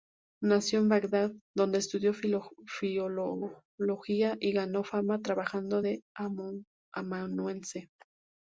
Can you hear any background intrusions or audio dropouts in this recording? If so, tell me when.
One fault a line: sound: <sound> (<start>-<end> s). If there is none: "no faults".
no faults